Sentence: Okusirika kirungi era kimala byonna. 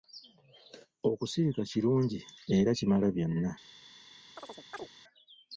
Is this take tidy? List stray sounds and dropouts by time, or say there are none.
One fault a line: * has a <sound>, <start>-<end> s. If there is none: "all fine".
* has a chirp, 4.4-4.9 s